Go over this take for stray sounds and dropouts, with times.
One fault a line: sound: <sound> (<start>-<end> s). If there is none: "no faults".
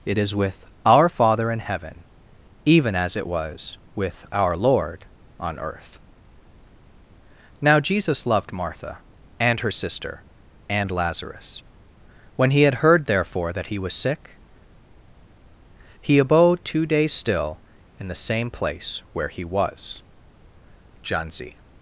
no faults